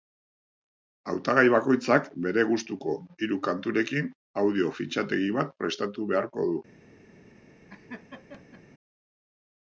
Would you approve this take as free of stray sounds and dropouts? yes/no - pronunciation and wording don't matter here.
no